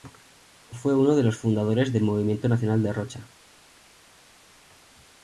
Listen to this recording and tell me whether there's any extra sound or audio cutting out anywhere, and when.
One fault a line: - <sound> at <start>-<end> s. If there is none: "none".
none